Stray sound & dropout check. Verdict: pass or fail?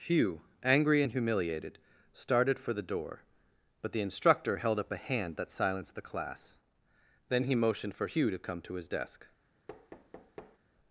fail